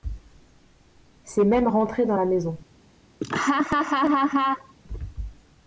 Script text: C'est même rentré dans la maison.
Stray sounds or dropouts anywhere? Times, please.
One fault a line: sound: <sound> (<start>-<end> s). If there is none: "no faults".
sound: laugh (3.2-4.7 s)